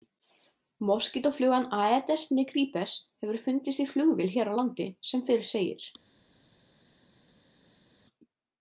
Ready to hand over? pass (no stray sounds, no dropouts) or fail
pass